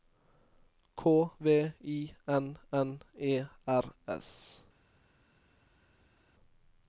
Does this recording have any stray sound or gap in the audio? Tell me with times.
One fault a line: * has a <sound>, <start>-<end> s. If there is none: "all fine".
all fine